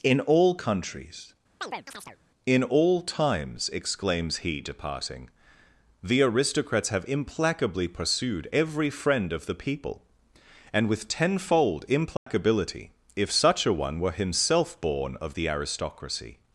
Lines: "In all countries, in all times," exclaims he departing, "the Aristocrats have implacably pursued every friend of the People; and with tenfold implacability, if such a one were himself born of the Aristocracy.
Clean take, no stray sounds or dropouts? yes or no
no